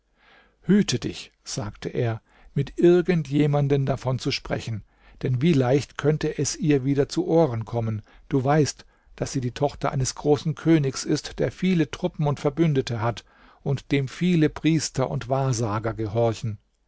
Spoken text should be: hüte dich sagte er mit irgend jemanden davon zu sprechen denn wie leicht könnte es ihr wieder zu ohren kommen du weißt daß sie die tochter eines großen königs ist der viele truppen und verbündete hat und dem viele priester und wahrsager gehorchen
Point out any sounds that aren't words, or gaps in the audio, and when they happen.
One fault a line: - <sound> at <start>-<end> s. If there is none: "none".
none